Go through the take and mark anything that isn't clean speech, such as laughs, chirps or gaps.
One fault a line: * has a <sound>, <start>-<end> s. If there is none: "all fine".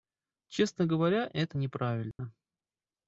* has a dropout, 2.1-2.2 s